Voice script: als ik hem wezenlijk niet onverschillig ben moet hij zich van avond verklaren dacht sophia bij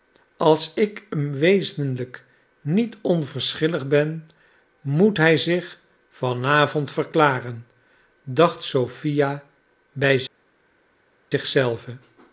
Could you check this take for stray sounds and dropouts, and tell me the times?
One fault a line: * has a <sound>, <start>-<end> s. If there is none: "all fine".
all fine